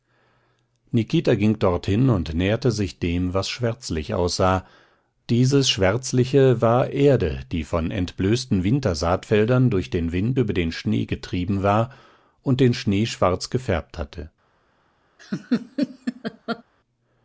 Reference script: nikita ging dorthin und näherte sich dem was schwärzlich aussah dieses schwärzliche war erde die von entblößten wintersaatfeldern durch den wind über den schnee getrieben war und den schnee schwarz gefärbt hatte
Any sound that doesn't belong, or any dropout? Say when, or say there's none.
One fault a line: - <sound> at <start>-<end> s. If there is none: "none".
- laugh at 15.2-16.6 s